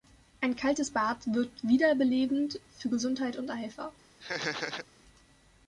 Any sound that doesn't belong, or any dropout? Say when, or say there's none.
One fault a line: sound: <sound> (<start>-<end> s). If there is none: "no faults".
sound: laugh (4.2-4.9 s)